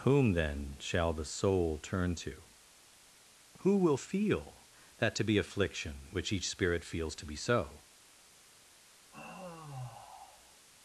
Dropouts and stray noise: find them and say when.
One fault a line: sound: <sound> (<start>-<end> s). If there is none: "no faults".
sound: sigh (9.1-10.7 s)